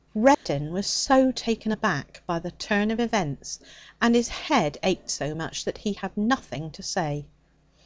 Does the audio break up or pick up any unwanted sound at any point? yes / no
yes